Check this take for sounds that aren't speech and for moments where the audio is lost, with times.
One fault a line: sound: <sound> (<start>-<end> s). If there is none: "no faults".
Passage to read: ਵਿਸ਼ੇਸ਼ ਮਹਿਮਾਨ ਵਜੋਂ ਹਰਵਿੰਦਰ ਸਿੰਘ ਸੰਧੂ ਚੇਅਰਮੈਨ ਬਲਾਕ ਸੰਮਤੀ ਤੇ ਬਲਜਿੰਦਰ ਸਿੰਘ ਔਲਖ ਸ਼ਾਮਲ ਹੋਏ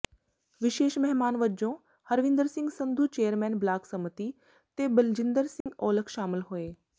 sound: dropout (5.6-5.7 s)